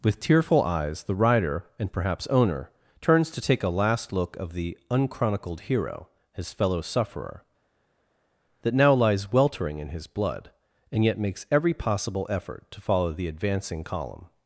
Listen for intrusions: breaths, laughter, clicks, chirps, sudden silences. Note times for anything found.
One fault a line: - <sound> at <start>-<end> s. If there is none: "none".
none